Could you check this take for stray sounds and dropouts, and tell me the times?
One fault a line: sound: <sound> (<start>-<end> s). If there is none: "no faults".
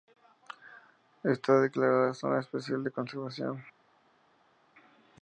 no faults